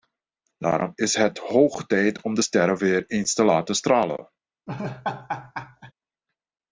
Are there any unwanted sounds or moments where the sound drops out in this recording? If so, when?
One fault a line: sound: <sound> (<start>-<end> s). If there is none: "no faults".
sound: laugh (4.7-5.9 s)